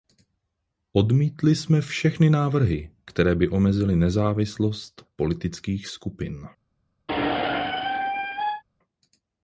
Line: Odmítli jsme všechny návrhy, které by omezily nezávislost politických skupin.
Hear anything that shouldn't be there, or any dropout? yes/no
yes